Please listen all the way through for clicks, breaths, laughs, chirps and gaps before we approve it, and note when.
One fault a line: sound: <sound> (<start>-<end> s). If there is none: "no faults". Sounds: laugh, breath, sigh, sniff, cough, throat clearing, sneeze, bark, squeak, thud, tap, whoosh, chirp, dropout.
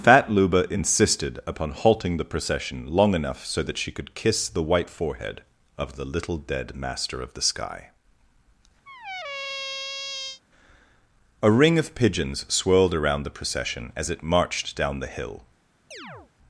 sound: squeak (8.9-10.4 s)
sound: chirp (15.9-16.3 s)